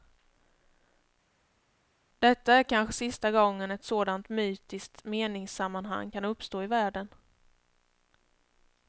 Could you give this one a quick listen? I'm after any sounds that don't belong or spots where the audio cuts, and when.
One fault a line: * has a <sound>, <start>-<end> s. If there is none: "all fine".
all fine